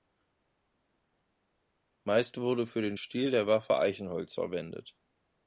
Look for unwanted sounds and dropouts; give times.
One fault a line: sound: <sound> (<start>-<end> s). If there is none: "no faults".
no faults